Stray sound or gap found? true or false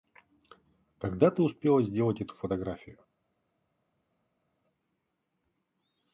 false